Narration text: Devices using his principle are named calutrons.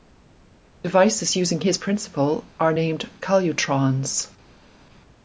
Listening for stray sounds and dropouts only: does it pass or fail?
pass